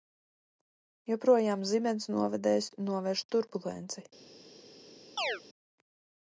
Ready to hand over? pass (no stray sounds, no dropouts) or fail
fail